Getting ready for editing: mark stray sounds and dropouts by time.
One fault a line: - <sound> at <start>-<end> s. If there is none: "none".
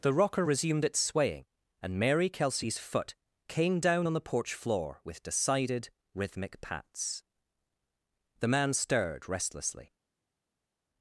none